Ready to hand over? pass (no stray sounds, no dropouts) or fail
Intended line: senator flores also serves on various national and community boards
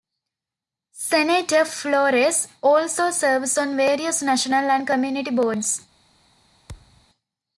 fail